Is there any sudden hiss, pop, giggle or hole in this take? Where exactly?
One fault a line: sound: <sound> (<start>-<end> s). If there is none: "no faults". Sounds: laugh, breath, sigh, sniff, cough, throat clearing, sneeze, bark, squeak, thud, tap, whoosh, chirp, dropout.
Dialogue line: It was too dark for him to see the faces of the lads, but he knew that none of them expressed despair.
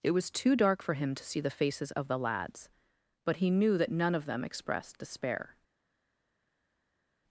no faults